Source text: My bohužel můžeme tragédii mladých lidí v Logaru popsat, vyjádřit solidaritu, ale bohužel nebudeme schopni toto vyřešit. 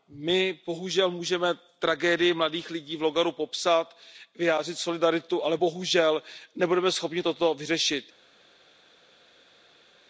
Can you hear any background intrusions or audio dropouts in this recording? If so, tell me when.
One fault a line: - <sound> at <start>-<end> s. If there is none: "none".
none